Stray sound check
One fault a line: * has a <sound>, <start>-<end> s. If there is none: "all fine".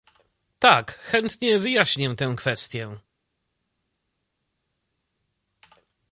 all fine